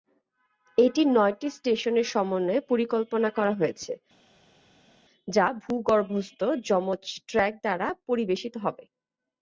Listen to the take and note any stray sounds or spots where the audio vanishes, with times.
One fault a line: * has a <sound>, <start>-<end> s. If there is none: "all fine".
all fine